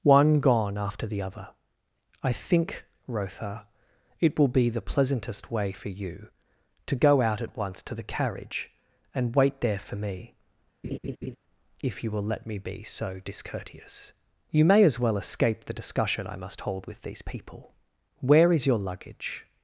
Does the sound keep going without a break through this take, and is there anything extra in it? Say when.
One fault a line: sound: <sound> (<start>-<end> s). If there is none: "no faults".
sound: laugh (10.8-11.4 s)